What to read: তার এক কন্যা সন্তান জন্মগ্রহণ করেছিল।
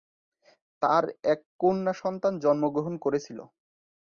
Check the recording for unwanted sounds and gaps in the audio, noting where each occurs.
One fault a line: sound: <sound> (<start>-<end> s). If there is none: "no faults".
no faults